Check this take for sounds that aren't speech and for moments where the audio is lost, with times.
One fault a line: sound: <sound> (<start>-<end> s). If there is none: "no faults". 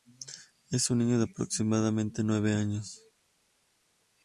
no faults